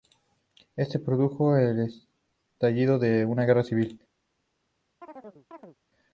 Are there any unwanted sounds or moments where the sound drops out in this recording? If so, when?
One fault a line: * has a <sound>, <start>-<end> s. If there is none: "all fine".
* has a chirp, 5.0-5.8 s